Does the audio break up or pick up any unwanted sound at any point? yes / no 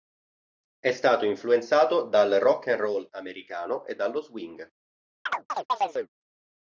yes